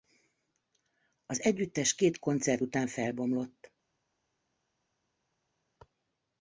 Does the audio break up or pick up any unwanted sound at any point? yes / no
no